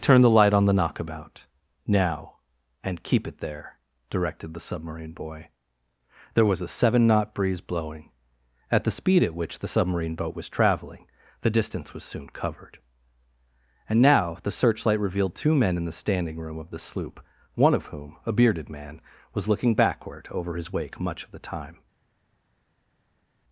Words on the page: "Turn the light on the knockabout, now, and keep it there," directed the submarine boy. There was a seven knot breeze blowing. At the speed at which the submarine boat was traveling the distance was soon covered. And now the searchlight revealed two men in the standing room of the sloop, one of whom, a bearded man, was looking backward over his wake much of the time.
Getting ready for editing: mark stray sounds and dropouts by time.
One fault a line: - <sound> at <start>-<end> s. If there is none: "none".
none